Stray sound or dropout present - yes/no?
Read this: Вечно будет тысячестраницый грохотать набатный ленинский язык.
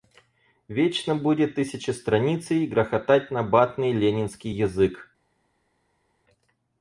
no